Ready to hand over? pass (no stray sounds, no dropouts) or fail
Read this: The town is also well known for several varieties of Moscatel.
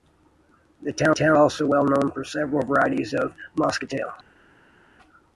pass